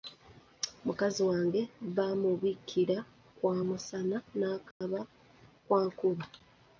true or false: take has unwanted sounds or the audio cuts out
true